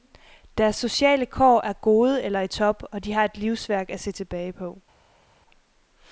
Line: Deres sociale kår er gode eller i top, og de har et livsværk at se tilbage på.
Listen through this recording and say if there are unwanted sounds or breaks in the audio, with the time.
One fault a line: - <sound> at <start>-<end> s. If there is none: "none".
none